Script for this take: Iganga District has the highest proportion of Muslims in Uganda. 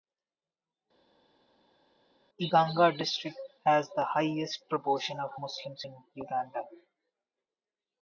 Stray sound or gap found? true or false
false